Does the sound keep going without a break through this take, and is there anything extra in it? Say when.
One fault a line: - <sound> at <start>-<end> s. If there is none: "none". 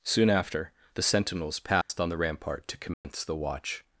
- dropout at 1.8-1.9 s
- dropout at 2.9-3.0 s